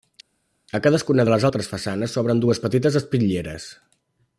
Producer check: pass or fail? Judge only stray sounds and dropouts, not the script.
pass